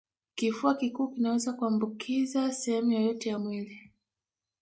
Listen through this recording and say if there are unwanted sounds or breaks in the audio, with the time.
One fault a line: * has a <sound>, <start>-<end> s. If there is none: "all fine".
all fine